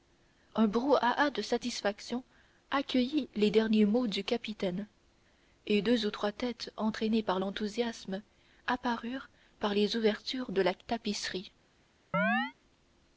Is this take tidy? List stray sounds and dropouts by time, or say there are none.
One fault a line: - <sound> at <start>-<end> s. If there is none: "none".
- chirp at 12.1-12.5 s